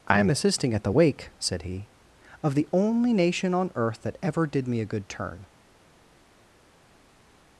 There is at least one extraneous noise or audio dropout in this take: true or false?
false